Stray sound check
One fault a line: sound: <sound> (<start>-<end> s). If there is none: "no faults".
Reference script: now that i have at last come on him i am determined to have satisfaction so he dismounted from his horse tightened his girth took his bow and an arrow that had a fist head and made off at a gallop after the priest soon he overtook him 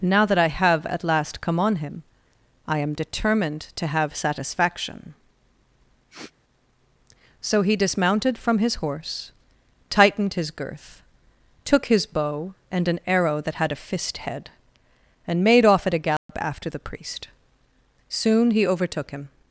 sound: sniff (6.1-6.3 s)
sound: dropout (16.2-16.3 s)